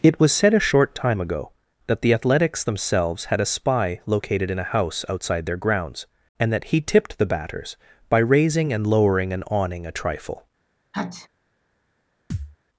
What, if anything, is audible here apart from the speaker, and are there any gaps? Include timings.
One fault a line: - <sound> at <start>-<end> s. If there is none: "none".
- sneeze at 10.9-11.3 s
- thud at 12.3-12.6 s